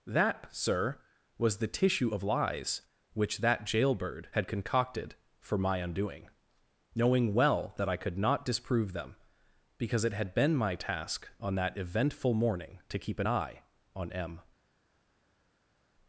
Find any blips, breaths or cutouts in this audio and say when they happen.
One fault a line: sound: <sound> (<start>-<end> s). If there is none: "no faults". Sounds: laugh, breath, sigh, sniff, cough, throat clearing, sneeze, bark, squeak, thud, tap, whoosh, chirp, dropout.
no faults